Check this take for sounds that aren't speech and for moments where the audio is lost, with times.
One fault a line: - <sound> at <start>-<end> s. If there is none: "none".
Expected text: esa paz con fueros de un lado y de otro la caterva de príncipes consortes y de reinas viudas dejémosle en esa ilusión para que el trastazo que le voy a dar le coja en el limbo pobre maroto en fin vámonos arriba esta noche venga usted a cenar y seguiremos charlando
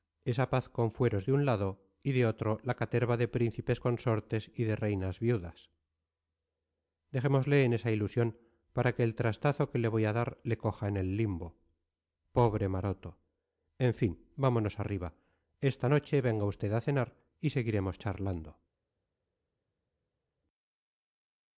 none